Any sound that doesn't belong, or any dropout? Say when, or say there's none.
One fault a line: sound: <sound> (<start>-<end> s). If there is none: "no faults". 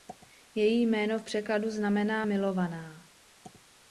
no faults